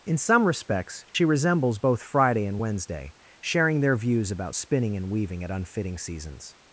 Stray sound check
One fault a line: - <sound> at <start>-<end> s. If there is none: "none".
- dropout at 1.1-1.1 s